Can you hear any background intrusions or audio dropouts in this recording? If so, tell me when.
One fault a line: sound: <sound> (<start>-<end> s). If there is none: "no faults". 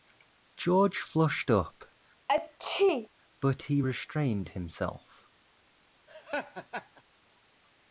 sound: sneeze (2.3-3.1 s)
sound: laugh (6.1-7.0 s)